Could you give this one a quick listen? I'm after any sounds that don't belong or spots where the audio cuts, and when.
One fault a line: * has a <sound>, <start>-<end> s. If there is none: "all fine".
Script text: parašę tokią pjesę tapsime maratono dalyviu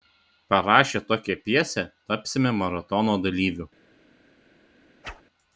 * has a whoosh, 5.0-5.2 s